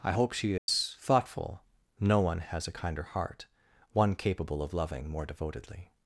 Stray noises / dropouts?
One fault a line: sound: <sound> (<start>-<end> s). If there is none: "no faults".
sound: dropout (0.6-0.7 s)